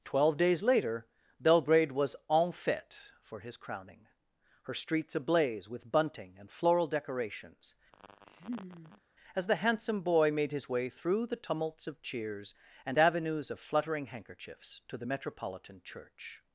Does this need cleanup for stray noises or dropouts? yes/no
yes